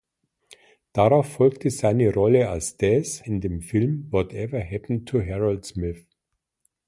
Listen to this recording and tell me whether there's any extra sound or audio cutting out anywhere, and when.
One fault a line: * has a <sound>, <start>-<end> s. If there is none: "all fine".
all fine